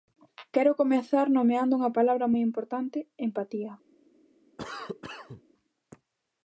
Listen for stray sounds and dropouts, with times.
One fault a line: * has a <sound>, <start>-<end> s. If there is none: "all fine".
* has a cough, 4.6-5.4 s